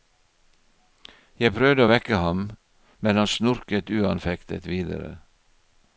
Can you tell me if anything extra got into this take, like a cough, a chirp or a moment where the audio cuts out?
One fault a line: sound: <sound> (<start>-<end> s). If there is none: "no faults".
no faults